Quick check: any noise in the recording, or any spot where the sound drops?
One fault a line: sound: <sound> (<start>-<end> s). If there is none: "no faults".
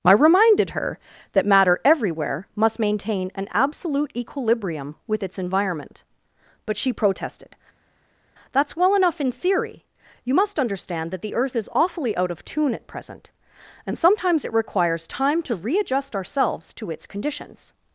no faults